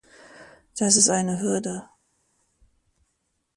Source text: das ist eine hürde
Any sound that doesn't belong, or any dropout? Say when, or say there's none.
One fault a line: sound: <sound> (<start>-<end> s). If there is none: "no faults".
no faults